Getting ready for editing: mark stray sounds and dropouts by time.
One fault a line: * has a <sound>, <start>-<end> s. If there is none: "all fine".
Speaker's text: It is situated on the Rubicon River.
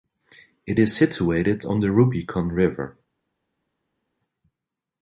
all fine